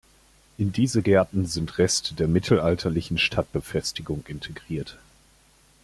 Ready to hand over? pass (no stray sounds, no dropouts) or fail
pass